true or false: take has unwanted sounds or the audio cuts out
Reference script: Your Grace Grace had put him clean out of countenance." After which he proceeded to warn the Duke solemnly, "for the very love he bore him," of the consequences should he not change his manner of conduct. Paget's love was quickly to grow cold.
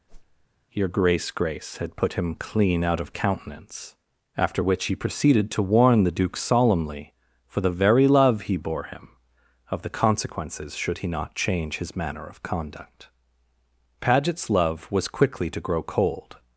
true